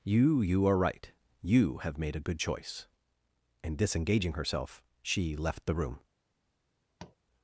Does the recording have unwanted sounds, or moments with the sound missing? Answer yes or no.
yes